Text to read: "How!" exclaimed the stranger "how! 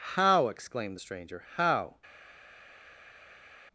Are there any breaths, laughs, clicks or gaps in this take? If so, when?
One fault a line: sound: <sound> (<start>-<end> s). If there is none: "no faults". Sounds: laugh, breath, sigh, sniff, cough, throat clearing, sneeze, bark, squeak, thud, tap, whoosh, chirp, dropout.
no faults